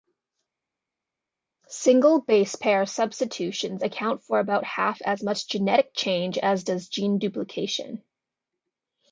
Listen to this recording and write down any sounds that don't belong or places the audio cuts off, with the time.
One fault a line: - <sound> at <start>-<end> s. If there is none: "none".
none